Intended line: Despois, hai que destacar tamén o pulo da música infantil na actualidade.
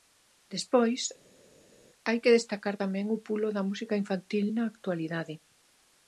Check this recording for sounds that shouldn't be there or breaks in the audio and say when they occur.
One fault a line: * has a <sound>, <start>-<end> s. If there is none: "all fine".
all fine